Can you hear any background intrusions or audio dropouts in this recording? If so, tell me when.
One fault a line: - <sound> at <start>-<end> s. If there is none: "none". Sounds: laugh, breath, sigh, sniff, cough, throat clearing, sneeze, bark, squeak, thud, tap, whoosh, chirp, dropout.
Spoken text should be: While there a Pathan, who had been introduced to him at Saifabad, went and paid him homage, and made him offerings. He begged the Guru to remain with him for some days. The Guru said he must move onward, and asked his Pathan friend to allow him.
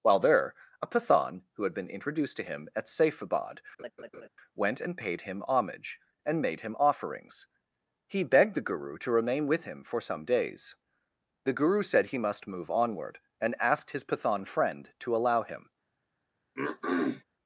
- laugh at 3.8-4.3 s
- throat clearing at 16.6-17.2 s